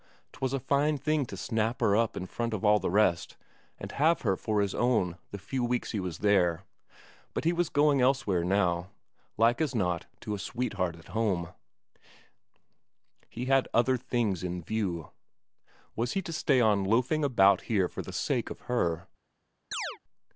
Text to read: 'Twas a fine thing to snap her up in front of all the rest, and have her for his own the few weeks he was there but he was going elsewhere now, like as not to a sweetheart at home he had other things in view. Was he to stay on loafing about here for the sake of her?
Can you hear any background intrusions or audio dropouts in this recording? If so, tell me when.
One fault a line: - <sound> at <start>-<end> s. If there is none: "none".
- chirp at 19.7-20.0 s